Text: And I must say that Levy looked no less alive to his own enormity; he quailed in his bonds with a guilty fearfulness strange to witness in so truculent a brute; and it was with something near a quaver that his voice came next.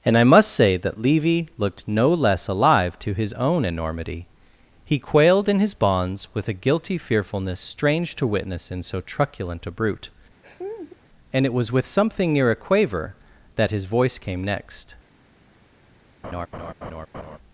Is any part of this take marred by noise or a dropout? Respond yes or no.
yes